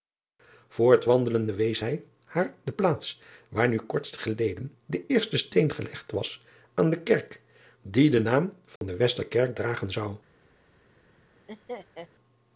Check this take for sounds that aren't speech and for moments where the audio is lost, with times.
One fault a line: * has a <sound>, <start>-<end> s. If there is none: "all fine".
* has a dropout, 8.8-8.8 s
* has a laugh, 11.5-12.1 s